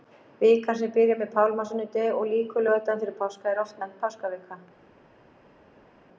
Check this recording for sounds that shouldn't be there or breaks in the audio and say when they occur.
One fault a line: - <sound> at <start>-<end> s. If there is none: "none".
none